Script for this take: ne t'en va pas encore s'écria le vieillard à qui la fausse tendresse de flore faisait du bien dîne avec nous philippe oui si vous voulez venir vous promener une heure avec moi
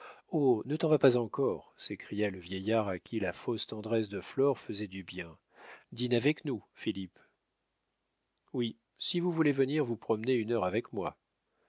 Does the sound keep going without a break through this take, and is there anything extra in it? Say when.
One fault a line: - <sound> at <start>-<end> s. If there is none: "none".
none